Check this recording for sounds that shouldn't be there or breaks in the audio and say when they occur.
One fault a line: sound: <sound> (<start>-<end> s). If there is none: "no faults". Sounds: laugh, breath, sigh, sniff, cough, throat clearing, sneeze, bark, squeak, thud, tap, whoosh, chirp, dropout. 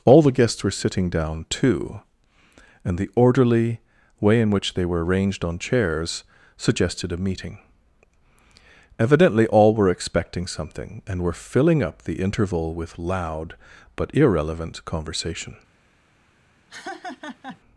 sound: laugh (16.7-17.6 s)